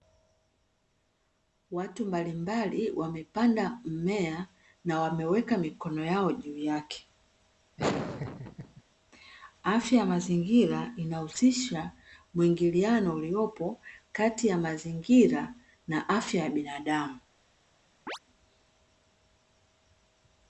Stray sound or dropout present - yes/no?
yes